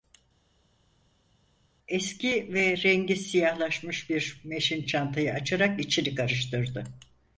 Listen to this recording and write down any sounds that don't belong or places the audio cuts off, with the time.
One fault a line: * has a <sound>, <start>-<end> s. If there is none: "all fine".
all fine